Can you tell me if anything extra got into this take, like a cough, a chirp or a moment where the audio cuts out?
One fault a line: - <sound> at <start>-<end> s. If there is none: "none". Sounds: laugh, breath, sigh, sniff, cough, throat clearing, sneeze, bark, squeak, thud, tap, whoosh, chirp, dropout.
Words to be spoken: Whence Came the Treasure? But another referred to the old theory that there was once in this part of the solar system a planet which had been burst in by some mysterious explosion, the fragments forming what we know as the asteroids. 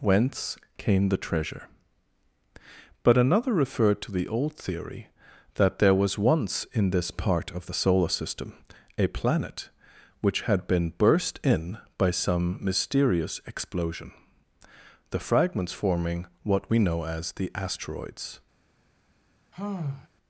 - sigh at 19.5-20.1 s